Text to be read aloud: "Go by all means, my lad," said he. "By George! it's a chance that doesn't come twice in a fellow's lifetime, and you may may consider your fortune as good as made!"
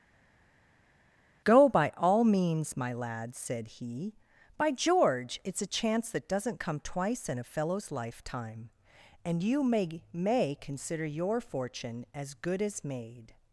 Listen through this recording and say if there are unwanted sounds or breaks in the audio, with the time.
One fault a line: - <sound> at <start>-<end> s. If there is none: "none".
none